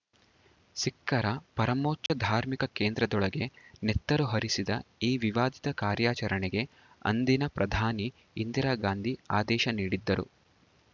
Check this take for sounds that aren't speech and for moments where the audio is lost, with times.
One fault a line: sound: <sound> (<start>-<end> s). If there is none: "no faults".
sound: dropout (2.1-2.1 s)